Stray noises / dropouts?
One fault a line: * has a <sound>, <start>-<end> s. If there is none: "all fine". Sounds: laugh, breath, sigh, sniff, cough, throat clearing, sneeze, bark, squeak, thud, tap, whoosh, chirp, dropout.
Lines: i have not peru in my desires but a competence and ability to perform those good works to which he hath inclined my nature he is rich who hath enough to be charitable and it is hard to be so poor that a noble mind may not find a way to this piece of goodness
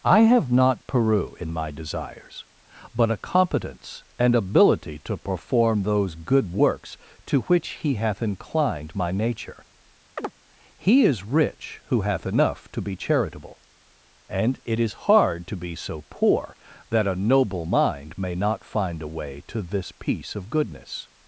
* has a chirp, 10.2-10.3 s